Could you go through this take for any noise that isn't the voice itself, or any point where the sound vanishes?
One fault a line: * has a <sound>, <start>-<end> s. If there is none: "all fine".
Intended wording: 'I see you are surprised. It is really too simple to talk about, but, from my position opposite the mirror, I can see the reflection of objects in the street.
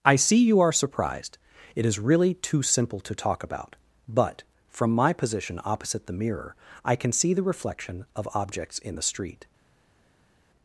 all fine